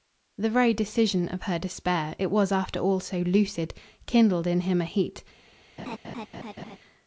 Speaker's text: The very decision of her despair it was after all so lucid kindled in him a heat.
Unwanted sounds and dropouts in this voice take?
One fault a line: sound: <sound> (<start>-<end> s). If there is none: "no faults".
sound: laugh (5.8-6.8 s)